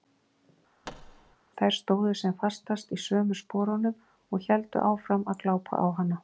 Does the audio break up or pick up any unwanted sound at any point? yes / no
yes